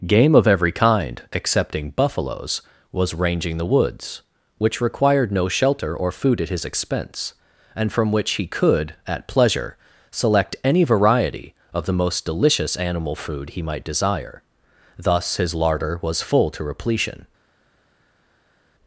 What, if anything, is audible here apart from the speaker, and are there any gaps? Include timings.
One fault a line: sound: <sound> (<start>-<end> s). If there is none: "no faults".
no faults